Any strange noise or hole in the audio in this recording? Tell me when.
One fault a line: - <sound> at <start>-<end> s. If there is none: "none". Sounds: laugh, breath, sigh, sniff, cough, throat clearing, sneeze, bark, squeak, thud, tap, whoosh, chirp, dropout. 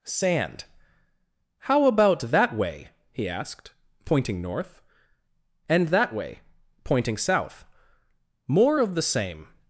none